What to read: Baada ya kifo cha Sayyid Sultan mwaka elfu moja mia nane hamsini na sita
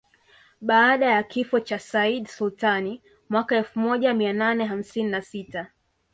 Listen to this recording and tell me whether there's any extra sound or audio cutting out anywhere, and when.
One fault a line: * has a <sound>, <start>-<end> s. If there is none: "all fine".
all fine